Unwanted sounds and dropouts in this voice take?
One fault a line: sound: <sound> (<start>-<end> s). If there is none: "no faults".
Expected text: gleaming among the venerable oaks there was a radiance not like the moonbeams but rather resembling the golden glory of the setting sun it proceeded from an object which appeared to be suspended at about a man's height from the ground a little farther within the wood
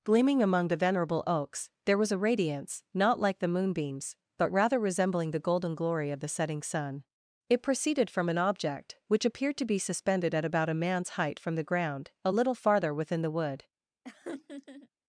sound: laugh (14.0-14.9 s)